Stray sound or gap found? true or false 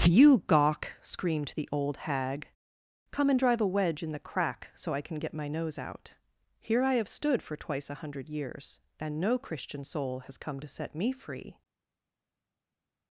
false